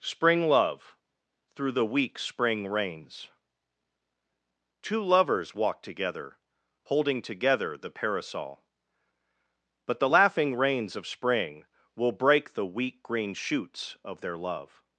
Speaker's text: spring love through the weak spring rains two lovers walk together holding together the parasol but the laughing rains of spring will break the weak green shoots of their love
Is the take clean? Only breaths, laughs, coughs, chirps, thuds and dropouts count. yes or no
yes